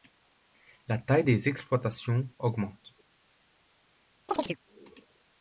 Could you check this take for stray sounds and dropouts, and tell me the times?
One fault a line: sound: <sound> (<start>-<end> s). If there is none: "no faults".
sound: chirp (4.3-4.6 s)